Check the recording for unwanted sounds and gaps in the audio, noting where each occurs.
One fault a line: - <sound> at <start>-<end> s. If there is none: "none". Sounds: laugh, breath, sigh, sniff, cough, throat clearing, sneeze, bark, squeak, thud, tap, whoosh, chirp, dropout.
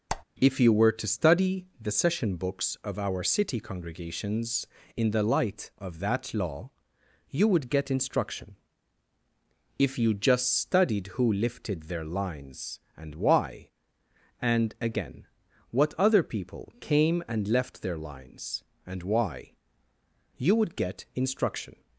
- squeak at 0.1-0.2 s